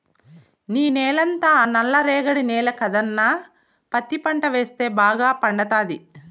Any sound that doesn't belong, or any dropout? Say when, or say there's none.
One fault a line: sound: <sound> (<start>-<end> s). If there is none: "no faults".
no faults